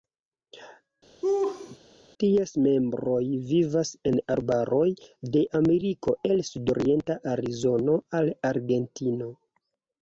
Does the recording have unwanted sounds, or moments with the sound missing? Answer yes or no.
yes